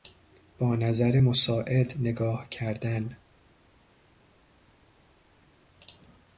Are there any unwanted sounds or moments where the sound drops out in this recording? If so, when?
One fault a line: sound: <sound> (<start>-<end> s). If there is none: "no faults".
no faults